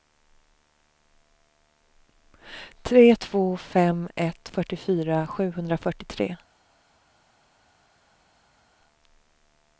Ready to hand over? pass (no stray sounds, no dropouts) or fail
pass